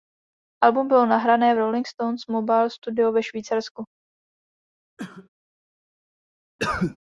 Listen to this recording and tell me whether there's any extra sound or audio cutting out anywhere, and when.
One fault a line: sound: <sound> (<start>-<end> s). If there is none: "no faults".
sound: cough (5.0-5.3 s)
sound: cough (6.6-7.0 s)